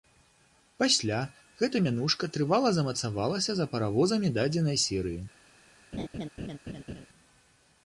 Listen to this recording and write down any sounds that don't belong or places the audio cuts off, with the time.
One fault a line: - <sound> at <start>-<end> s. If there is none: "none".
- laugh at 5.9-7.1 s